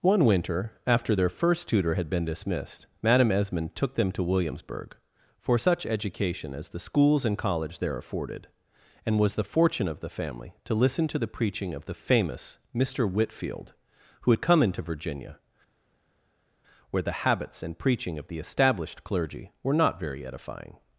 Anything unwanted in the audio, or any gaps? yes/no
no